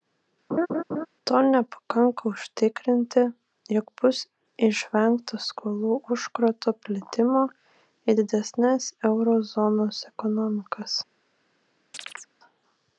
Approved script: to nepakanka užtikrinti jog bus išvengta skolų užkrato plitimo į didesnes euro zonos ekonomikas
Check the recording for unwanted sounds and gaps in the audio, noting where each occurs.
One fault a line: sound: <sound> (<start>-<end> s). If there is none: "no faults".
sound: laugh (0.5-1.1 s)
sound: chirp (11.9-12.3 s)